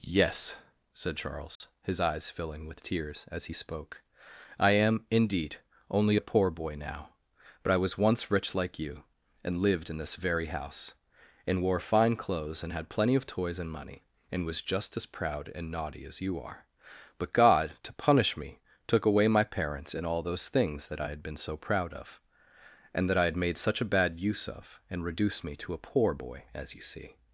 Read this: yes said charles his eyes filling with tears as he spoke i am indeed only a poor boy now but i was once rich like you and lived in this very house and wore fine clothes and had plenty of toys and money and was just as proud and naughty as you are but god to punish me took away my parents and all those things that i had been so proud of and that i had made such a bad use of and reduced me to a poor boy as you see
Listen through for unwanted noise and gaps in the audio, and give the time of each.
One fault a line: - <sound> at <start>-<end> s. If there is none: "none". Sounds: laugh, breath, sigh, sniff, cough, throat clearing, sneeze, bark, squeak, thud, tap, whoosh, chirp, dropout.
- dropout at 1.6-1.6 s